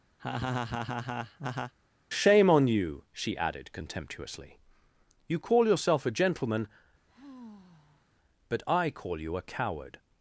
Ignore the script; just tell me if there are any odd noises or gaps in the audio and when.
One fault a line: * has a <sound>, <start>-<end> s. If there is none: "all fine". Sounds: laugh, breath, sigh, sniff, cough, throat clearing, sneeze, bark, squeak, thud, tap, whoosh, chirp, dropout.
* has a laugh, 0.2-1.7 s
* has a sigh, 7.1-8.1 s